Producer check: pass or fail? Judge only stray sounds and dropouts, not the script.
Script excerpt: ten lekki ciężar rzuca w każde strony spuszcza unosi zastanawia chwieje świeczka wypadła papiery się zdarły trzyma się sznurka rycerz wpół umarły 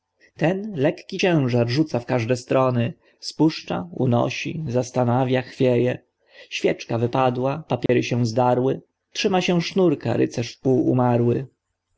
fail